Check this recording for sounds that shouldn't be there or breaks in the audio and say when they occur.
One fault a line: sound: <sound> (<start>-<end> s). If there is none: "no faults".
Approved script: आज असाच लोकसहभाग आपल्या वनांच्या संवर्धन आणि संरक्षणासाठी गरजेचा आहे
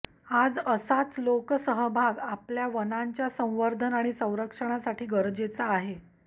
no faults